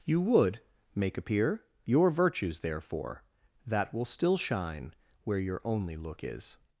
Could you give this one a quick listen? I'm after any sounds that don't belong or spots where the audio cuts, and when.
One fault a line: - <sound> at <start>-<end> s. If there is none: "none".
none